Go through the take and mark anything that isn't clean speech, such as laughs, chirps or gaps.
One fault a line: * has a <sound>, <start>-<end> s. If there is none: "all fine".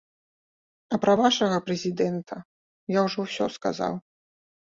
all fine